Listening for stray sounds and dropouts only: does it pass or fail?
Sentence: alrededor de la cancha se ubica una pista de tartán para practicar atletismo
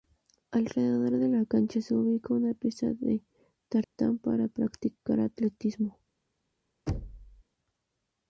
fail